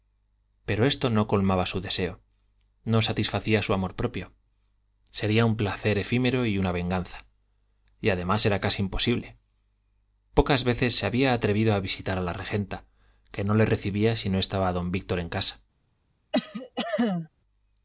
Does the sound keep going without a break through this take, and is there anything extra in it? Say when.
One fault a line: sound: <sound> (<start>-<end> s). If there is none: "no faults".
sound: cough (16.3-17.3 s)